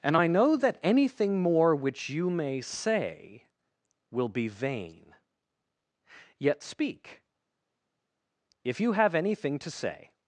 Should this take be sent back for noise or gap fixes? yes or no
no